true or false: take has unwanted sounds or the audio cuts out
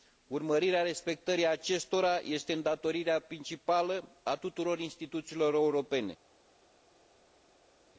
false